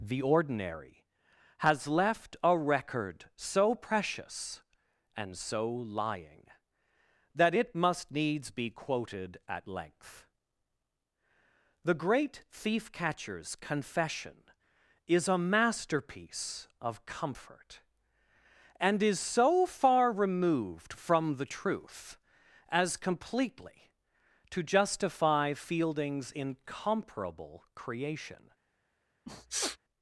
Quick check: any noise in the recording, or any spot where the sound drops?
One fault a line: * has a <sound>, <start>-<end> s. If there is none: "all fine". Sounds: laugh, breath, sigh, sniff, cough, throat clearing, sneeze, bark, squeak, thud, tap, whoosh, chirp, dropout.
* has a sniff, 29.3-29.8 s